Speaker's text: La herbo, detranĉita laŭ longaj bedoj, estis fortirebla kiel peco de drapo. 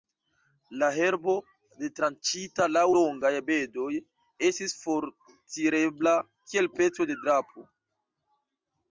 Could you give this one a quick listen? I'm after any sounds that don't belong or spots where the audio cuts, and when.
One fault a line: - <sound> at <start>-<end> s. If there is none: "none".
none